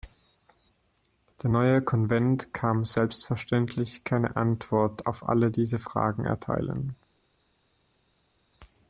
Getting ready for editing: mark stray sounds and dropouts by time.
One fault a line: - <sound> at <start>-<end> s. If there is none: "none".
none